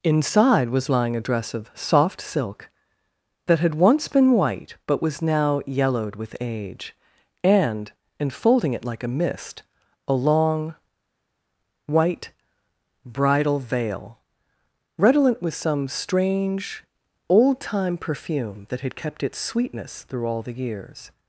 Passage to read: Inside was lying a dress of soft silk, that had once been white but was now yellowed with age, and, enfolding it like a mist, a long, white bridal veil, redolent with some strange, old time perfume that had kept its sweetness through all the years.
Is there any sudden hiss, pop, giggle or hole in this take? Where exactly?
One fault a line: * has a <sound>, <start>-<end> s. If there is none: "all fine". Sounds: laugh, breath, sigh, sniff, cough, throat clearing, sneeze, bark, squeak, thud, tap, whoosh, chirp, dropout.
all fine